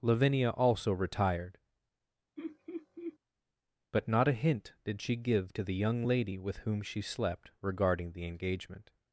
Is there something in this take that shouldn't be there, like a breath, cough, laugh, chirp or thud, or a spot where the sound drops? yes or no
yes